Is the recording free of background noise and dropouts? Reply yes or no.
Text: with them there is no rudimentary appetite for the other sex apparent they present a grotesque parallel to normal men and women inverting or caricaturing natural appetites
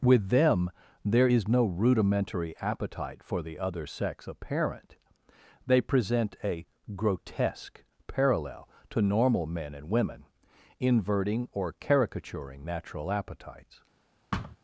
no